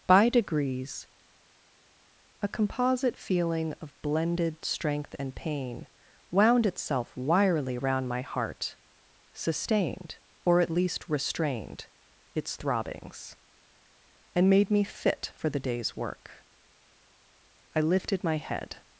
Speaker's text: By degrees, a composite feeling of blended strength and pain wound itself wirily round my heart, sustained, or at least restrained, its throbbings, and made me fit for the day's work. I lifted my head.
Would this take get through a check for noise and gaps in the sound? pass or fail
pass